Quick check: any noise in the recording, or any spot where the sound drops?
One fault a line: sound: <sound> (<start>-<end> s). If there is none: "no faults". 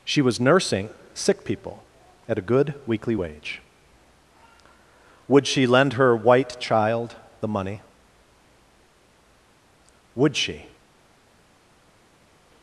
no faults